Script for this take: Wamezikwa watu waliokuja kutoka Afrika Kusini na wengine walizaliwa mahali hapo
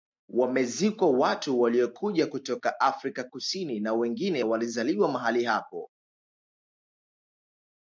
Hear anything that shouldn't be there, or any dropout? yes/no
no